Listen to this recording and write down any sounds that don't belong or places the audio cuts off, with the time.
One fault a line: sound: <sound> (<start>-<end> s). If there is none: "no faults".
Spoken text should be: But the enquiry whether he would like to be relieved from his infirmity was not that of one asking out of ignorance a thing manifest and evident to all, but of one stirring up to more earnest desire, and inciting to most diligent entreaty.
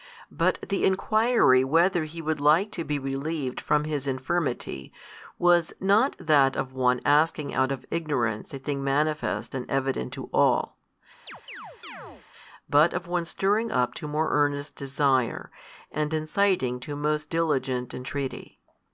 sound: chirp (11.3-12.3 s)